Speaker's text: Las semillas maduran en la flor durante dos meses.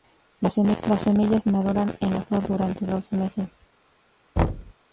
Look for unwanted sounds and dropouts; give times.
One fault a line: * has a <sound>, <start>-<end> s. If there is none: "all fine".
* has a thud, 4.4-4.7 s